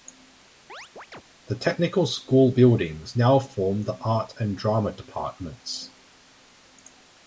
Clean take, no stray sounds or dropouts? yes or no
no